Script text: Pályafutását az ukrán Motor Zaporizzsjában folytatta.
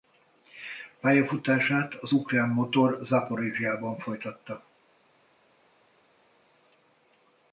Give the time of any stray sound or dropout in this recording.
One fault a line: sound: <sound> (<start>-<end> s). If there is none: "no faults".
no faults